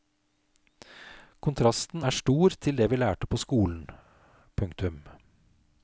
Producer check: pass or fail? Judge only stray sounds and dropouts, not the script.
pass